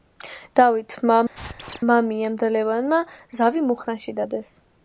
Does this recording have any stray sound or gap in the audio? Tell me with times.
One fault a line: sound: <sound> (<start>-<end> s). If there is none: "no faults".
sound: squeak (1.3-1.8 s)